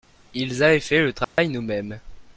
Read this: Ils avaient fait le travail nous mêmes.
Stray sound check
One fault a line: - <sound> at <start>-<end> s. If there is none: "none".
- dropout at 1.2-1.4 s